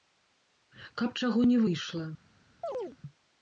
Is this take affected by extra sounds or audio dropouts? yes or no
yes